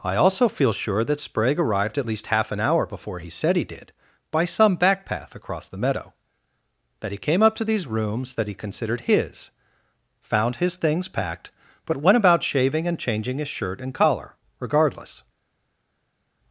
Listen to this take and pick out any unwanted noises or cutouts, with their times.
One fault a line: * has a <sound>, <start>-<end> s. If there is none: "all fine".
all fine